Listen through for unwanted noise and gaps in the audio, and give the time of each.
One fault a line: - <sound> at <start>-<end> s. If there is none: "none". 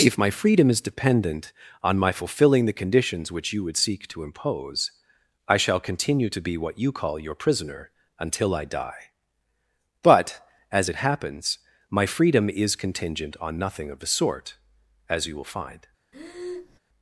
- breath at 16.1-16.8 s